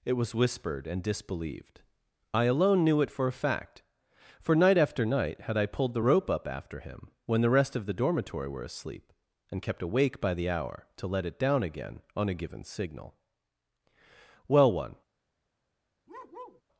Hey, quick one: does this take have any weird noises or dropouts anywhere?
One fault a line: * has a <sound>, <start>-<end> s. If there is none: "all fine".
* has a bark, 16.1-16.6 s